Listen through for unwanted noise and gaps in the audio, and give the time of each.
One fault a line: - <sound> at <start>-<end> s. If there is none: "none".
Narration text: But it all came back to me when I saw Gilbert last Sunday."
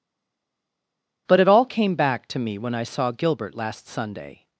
none